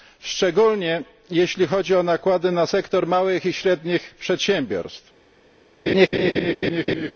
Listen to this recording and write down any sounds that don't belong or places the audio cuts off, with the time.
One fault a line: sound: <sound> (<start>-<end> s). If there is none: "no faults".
sound: laugh (5.9-7.1 s)